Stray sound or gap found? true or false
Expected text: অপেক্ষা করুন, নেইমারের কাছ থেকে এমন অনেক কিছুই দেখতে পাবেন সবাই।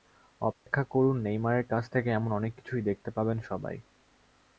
true